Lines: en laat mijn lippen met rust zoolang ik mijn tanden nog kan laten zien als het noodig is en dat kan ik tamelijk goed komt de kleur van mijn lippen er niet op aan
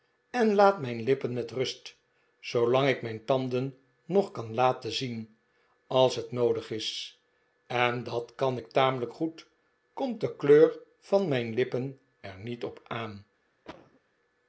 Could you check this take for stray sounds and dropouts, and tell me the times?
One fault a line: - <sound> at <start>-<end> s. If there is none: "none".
- cough at 13.7-14.0 s